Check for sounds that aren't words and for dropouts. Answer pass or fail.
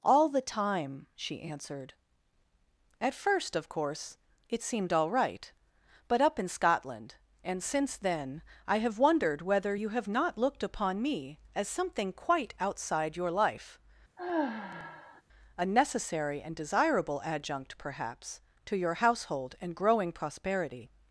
fail